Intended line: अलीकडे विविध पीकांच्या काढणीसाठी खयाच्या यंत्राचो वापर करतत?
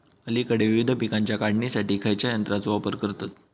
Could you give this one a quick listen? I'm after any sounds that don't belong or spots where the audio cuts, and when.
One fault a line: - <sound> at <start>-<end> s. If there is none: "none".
none